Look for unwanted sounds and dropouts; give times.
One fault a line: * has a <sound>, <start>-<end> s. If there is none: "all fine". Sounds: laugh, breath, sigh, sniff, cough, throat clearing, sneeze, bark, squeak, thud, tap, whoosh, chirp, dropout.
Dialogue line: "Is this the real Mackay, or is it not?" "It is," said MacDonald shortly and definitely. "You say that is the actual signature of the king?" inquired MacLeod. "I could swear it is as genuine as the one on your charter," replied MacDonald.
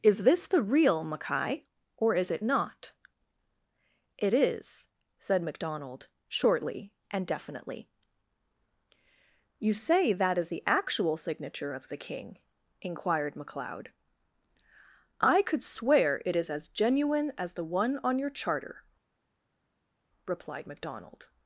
all fine